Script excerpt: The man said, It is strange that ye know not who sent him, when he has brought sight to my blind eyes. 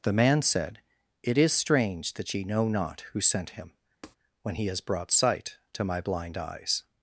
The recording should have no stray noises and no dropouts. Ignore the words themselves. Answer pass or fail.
fail